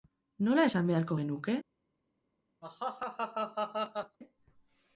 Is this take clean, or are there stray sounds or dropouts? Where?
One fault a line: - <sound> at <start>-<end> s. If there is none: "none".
- laugh at 2.6-4.2 s